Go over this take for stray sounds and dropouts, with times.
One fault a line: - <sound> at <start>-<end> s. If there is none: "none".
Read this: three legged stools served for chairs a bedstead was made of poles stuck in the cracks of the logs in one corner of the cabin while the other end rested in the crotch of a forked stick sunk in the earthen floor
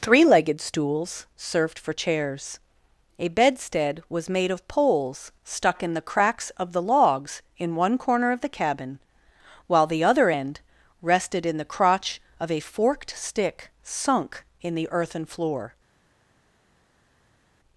none